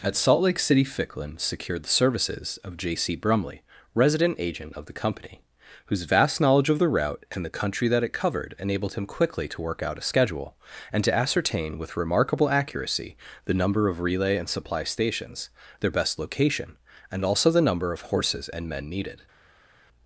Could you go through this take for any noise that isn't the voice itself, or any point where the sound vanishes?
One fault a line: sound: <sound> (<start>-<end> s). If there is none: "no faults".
no faults